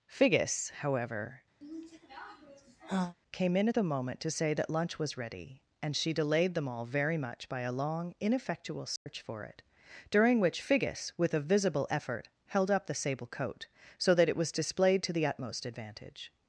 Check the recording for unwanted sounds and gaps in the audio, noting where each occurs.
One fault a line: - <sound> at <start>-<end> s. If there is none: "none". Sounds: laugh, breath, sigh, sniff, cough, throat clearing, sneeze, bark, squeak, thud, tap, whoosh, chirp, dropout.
- sigh at 1.6-3.1 s
- dropout at 9.0-9.1 s